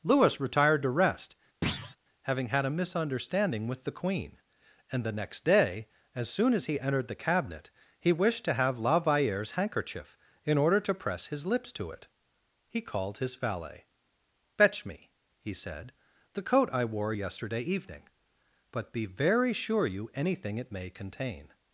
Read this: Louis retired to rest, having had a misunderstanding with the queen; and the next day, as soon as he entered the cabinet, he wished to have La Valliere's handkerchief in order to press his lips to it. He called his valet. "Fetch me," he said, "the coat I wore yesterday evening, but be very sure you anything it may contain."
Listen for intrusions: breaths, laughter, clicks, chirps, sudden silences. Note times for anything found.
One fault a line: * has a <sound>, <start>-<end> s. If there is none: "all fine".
* has a thud, 1.6-2.0 s